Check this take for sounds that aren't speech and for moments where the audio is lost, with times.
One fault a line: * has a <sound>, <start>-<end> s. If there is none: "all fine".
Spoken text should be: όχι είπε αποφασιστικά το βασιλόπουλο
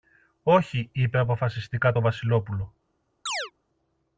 * has a chirp, 3.3-3.5 s